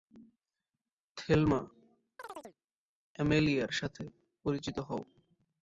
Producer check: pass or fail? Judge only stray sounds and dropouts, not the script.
fail